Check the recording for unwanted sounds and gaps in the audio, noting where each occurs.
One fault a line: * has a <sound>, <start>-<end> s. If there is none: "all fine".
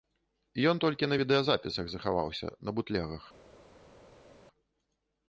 all fine